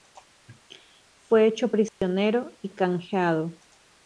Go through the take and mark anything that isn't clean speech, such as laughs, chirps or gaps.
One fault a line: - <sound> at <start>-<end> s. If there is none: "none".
- dropout at 1.9-2.0 s